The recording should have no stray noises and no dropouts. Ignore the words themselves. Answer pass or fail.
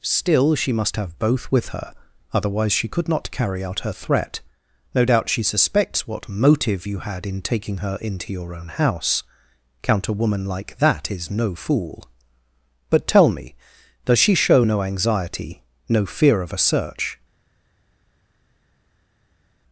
pass